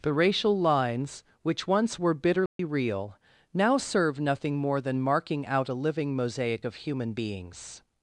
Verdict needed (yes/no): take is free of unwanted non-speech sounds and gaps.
no